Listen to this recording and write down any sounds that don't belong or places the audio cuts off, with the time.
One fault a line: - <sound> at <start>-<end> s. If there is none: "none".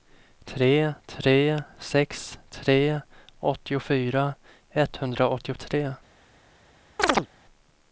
- chirp at 7.0-7.3 s